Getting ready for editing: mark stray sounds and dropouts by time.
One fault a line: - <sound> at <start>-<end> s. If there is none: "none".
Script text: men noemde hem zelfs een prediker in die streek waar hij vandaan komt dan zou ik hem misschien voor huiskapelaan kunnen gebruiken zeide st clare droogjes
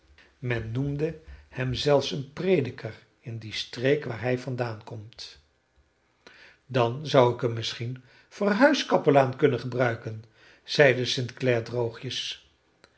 none